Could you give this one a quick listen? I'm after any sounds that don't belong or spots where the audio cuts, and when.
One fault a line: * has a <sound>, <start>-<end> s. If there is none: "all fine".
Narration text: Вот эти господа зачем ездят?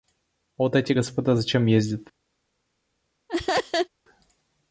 * has a laugh, 3.3-3.9 s